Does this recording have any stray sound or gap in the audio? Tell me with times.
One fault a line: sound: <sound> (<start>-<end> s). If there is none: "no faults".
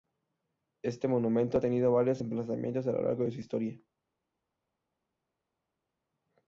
no faults